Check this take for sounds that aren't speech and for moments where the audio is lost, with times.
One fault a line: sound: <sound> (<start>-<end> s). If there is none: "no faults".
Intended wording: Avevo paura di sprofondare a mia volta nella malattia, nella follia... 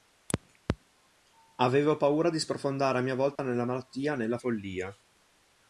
sound: dropout (3.4-3.4 s)